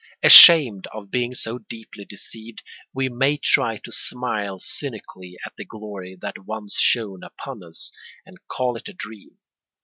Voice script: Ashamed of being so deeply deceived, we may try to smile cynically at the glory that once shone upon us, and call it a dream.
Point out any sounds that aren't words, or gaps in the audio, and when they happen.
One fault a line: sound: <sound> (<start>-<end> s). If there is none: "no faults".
no faults